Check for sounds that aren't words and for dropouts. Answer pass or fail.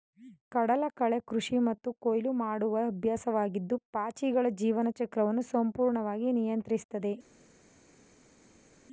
pass